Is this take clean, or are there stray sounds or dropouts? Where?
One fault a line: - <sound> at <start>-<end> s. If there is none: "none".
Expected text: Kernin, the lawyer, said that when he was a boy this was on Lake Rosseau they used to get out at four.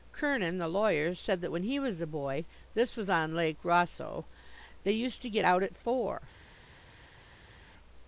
none